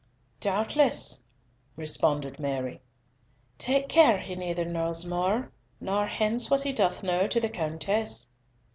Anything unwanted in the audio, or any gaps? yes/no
no